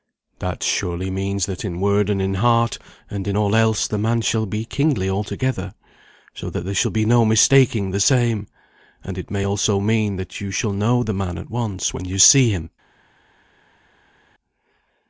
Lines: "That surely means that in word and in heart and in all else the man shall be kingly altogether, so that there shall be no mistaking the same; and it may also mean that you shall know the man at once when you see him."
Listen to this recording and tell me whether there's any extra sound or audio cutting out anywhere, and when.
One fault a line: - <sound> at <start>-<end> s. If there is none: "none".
none